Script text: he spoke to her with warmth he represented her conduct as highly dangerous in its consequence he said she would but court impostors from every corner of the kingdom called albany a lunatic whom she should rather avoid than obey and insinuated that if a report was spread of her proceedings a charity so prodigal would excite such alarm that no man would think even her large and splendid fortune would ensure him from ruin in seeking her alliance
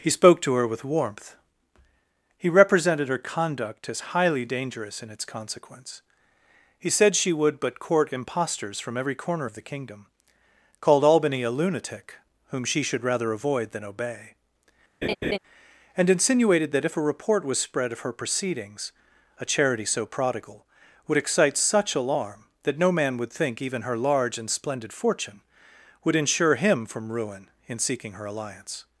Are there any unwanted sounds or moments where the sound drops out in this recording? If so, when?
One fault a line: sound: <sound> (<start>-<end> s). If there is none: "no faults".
sound: laugh (15.0-15.4 s)